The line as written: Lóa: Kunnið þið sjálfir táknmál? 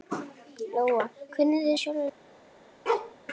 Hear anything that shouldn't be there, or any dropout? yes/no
yes